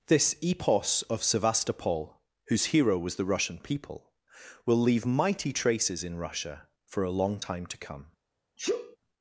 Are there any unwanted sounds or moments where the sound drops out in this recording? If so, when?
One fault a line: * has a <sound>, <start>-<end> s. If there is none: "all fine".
* has a sneeze, 8.6-9.0 s